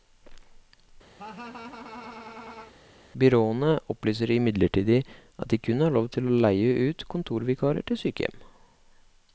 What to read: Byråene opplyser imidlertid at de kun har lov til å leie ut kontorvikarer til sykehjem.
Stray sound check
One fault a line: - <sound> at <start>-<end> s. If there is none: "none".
- laugh at 1.2-2.7 s